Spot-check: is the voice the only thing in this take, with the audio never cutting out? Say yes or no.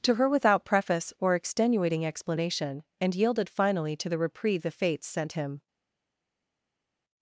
yes